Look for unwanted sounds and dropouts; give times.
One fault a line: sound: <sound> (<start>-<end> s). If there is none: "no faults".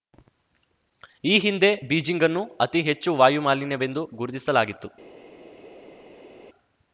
no faults